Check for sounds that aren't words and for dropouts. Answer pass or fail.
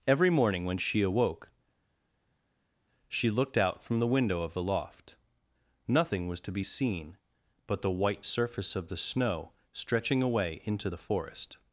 pass